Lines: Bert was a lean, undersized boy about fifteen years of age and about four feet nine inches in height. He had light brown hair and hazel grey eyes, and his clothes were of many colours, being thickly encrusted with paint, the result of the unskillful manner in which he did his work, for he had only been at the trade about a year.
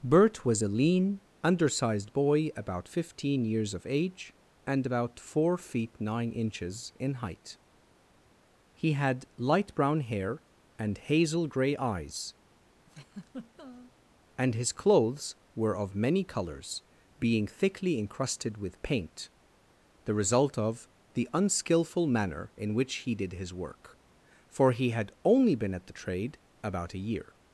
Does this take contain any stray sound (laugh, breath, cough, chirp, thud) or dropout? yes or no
yes